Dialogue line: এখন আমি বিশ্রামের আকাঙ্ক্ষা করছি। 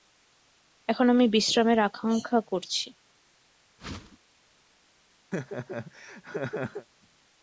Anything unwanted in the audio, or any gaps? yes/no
yes